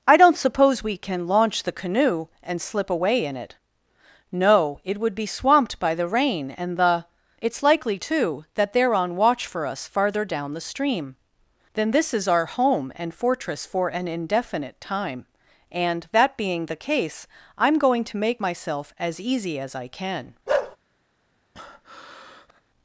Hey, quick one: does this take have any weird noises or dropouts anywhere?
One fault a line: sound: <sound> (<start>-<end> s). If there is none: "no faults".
sound: bark (20.5-20.8 s)
sound: breath (21.5-22.6 s)